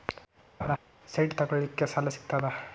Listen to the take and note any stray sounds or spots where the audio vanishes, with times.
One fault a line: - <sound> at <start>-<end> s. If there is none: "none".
- laugh at 0.6-0.8 s